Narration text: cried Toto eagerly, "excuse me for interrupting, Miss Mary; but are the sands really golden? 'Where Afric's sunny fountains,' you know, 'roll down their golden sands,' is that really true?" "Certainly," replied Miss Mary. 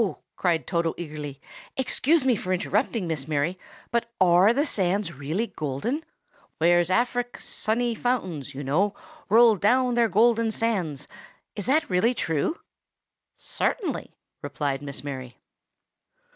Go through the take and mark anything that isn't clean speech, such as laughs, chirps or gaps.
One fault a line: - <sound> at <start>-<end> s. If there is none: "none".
none